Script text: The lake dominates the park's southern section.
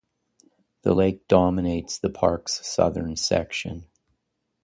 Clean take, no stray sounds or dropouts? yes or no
yes